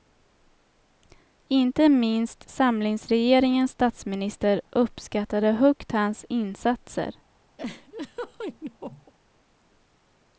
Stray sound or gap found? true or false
true